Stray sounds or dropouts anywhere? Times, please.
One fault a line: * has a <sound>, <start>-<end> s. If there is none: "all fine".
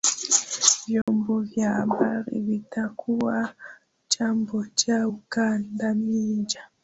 * has a dropout, 1.0-1.1 s